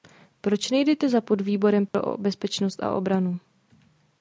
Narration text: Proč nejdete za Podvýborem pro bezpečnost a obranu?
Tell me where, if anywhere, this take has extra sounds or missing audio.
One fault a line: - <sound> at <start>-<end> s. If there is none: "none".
- dropout at 1.9-1.9 s